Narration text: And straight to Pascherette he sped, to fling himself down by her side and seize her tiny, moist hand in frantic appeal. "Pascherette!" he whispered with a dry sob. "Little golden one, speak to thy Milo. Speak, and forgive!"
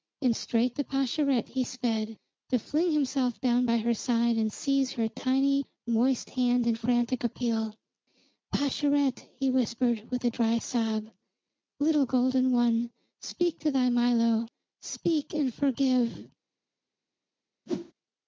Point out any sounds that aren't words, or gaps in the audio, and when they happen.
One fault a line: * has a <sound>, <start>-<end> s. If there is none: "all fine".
* has a whoosh, 17.7-17.9 s